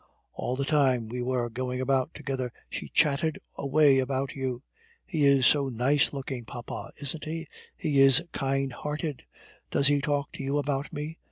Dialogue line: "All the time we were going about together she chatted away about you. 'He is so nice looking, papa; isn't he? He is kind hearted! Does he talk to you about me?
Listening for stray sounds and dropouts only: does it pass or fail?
pass